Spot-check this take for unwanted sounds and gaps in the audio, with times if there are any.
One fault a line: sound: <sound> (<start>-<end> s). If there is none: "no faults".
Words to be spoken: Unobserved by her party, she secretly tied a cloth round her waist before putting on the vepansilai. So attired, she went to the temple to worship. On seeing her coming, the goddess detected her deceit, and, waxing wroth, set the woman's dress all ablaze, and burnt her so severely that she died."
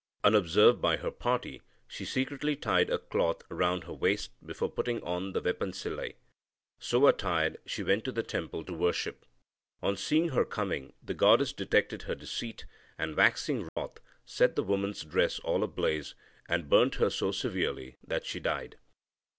sound: dropout (13.7-13.8 s)